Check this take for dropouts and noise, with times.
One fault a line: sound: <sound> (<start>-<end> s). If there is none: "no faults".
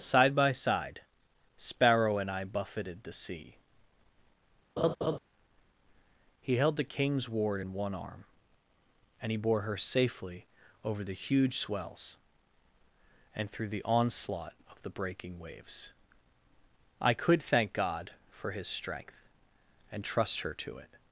sound: laugh (4.8-5.2 s)